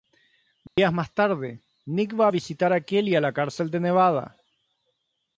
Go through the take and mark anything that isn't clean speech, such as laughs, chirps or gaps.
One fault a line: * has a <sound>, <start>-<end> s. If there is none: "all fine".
* has a dropout, 0.7-0.8 s